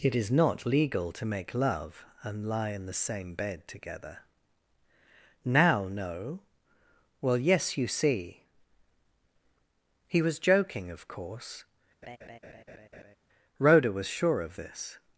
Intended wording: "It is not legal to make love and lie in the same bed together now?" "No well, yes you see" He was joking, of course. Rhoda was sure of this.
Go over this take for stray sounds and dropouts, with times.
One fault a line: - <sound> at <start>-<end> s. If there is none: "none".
- laugh at 12.0-13.2 s